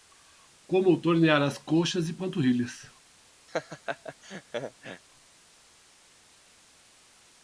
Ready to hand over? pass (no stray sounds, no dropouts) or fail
fail